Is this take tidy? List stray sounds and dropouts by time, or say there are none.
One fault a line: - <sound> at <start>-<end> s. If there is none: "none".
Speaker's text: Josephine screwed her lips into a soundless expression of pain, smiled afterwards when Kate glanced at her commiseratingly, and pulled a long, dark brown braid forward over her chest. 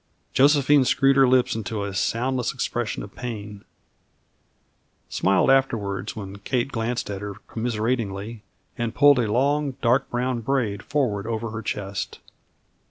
none